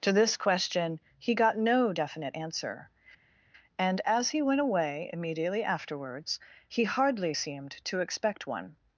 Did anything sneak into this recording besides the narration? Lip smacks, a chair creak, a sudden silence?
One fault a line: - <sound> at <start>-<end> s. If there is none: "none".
none